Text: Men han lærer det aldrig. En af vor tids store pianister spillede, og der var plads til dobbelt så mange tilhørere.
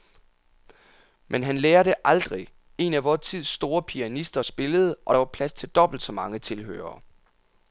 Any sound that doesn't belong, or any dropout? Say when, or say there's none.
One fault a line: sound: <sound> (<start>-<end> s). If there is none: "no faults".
no faults